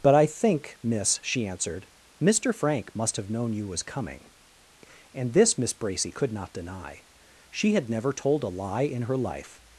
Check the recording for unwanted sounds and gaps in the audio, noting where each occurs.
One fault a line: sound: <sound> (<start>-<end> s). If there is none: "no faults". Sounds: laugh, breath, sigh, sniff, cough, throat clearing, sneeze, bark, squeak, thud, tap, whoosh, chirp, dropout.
no faults